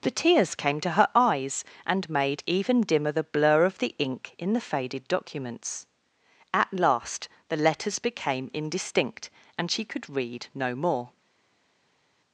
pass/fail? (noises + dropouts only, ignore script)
pass